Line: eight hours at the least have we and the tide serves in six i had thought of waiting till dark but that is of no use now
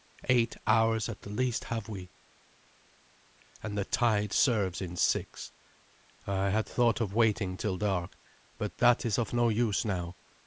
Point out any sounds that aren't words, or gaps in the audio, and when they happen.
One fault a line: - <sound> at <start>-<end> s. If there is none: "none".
none